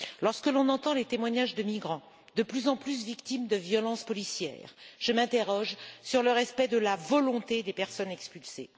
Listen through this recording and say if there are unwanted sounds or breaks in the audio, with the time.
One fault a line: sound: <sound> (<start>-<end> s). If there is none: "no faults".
no faults